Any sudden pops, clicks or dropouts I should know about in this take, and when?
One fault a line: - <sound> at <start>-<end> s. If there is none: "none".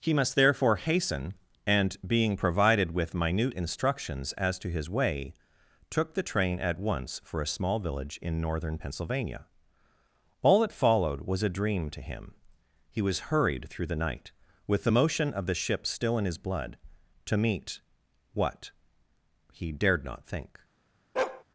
- bark at 21.2-21.4 s